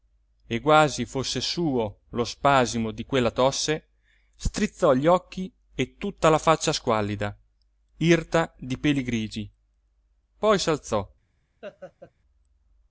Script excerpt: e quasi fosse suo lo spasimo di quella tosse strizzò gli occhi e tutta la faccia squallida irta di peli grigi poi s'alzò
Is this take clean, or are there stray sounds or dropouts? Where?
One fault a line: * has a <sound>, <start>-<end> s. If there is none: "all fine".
* has a laugh, 11.6-12.1 s